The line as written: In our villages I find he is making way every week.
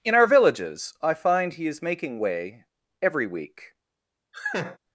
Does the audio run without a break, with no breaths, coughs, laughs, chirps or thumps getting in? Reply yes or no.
no